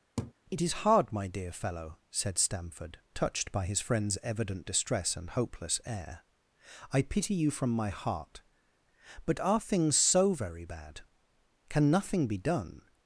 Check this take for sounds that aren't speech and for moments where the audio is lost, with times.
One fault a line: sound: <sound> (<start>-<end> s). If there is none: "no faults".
sound: laugh (0.2-0.3 s)